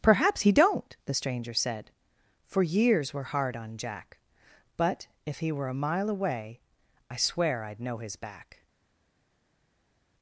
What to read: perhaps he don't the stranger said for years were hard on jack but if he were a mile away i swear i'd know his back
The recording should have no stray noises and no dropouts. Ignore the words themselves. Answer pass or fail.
pass